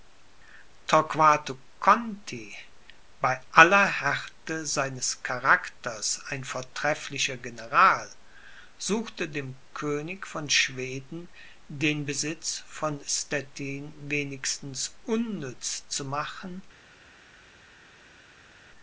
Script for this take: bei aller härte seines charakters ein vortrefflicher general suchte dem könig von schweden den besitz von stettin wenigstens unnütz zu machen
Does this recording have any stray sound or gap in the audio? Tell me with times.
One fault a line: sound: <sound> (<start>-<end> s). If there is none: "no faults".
no faults